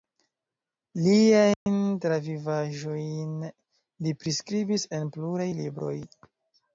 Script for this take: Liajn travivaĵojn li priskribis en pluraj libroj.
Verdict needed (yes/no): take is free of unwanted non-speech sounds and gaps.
no